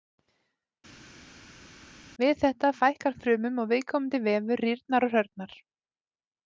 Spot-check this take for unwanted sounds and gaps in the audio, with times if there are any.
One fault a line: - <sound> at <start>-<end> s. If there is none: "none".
none